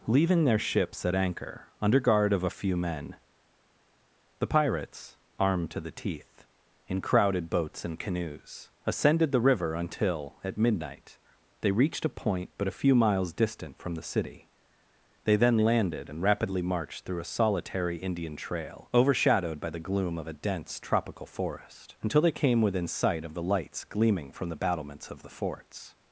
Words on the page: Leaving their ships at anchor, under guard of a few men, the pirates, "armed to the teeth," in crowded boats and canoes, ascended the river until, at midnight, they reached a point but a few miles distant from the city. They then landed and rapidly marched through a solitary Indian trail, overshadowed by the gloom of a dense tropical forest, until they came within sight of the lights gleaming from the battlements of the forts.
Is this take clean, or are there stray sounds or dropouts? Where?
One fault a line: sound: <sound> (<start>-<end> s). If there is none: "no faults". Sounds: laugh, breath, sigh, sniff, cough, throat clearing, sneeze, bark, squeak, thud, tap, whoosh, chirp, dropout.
no faults